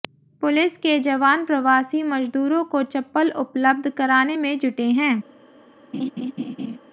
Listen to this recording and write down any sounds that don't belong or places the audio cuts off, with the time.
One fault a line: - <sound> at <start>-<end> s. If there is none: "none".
- laugh at 5.9-6.8 s